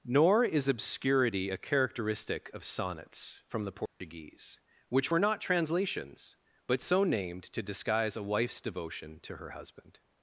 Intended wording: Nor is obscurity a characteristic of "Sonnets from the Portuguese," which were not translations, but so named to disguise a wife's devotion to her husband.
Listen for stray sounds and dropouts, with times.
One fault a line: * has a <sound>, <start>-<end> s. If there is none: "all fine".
* has a dropout, 3.9-4.0 s